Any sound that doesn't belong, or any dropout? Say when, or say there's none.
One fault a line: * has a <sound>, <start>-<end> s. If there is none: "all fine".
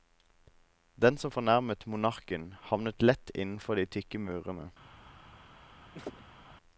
* has a laugh, 5.9-6.5 s